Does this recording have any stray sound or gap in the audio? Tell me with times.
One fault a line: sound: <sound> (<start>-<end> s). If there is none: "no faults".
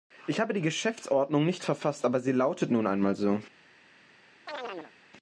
sound: chirp (4.5-4.9 s)